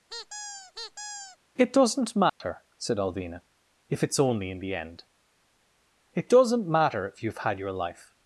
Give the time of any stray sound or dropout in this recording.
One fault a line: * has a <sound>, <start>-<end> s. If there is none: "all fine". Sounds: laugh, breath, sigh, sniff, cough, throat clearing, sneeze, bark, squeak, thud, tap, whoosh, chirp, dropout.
* has a squeak, 0.1-1.4 s
* has a dropout, 2.3-2.4 s